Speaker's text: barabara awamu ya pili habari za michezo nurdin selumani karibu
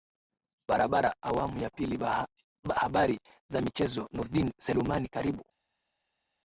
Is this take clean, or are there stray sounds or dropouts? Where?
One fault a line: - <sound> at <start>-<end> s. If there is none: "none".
none